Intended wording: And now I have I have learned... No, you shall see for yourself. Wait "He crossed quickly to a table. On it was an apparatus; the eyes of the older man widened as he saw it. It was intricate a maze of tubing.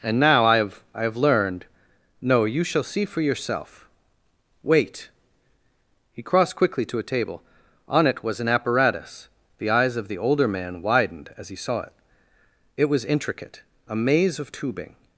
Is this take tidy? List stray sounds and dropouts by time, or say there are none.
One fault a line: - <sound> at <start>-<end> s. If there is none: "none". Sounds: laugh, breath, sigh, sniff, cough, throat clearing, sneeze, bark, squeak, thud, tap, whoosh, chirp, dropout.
none